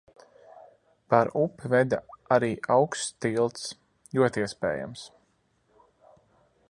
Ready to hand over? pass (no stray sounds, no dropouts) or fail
pass